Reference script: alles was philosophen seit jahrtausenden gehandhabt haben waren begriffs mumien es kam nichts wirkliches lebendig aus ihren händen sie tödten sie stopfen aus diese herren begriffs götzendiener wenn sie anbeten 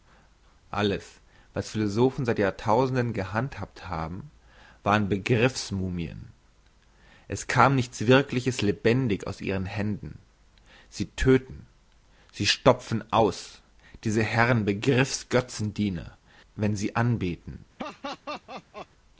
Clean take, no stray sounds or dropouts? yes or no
no